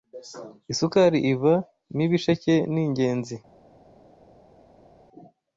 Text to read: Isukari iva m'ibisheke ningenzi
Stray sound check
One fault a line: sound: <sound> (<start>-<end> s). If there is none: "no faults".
no faults